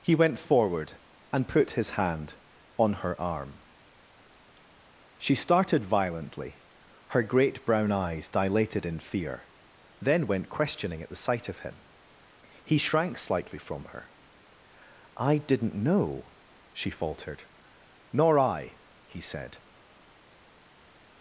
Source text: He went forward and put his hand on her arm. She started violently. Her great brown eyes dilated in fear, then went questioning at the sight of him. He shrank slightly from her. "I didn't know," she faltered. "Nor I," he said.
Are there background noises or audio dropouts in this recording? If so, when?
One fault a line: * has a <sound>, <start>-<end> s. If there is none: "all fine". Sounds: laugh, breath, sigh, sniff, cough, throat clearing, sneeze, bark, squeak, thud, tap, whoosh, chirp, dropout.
all fine